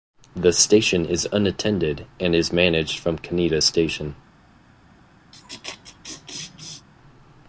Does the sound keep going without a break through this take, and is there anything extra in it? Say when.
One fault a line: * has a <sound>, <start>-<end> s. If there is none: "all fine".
* has a laugh, 5.3-6.9 s